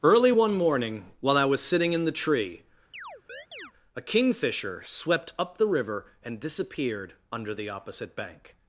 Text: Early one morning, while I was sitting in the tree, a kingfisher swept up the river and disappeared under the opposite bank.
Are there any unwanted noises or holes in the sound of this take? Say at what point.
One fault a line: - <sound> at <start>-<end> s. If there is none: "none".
- chirp at 2.9-3.7 s